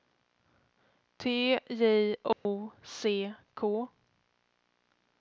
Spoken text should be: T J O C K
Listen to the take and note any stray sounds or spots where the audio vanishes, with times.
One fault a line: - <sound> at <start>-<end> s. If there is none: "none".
- dropout at 2.3-2.5 s